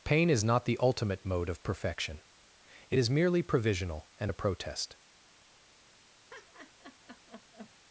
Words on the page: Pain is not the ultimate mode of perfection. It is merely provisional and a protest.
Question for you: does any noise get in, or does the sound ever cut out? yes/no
yes